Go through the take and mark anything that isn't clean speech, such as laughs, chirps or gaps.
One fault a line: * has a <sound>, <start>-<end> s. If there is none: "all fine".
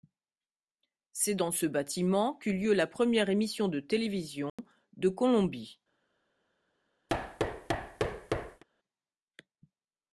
* has a dropout, 4.5-4.6 s
* has a thud, 7.1-8.6 s